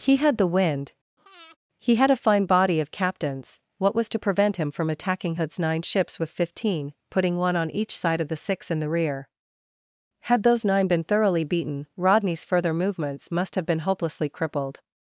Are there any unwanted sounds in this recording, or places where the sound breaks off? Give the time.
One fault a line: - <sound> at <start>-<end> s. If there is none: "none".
- breath at 1.2-1.6 s